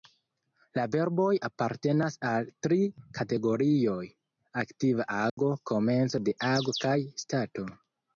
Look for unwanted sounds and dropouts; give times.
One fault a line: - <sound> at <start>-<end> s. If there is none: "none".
- dropout at 5.3-5.4 s